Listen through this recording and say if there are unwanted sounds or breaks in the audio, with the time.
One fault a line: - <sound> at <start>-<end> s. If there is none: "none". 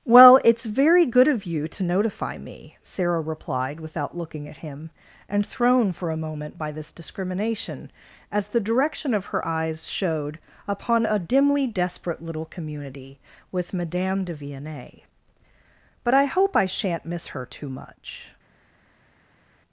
none